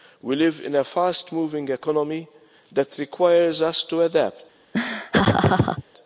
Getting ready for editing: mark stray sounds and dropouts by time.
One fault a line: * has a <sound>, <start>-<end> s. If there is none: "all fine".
* has a laugh, 4.7-5.8 s